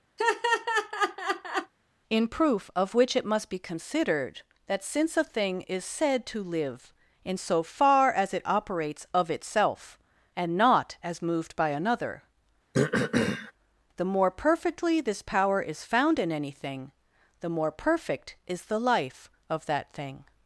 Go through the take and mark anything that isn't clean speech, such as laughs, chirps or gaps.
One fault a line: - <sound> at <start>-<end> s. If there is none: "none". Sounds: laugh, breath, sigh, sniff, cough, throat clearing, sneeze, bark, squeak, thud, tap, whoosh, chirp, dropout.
- laugh at 0.2-1.7 s
- throat clearing at 12.7-13.5 s